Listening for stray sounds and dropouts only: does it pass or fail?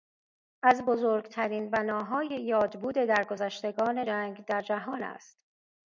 pass